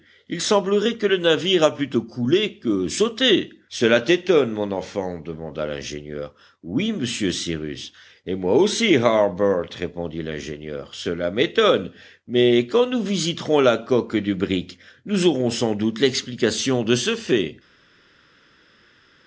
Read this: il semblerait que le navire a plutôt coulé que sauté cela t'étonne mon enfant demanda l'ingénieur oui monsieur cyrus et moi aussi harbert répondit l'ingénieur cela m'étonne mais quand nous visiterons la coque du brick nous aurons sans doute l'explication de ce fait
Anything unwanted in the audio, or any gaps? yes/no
no